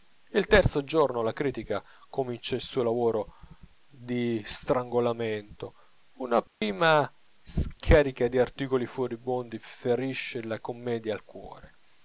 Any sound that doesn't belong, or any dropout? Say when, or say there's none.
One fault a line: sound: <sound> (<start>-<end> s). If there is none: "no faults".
sound: dropout (6.5-6.6 s)